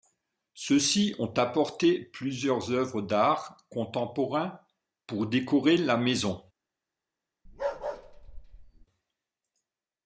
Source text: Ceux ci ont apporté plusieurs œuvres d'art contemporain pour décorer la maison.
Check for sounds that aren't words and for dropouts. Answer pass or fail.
fail